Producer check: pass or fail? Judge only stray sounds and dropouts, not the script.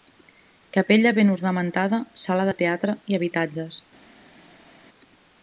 pass